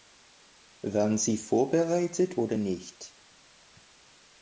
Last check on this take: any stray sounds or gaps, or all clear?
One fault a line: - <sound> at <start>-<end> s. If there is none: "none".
none